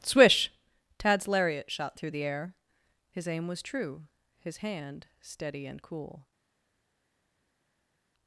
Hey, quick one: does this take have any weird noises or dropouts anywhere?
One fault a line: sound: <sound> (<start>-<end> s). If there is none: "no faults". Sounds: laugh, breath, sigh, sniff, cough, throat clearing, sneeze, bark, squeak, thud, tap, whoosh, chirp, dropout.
no faults